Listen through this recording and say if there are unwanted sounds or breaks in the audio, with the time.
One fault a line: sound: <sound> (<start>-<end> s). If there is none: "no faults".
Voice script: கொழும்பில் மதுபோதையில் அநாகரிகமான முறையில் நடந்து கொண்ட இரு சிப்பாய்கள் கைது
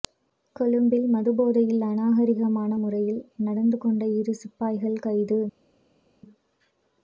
no faults